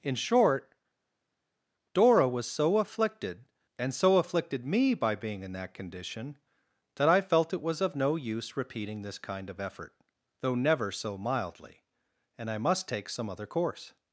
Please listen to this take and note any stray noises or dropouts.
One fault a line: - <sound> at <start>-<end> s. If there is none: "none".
none